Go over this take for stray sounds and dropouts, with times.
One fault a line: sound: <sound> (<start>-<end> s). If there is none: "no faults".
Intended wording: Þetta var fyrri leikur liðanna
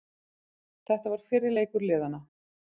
no faults